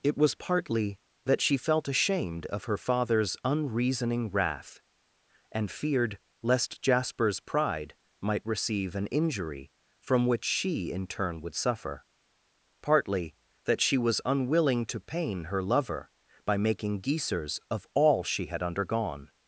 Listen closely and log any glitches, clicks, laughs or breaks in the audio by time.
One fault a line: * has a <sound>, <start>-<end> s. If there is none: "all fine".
all fine